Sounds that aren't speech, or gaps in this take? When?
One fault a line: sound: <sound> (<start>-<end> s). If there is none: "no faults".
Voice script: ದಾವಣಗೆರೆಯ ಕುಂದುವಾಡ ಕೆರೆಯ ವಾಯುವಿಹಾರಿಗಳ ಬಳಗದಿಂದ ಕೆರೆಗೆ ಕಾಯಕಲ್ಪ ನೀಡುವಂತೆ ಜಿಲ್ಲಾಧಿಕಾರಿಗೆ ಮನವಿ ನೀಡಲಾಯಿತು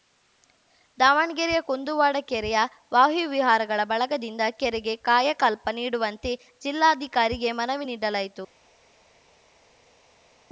no faults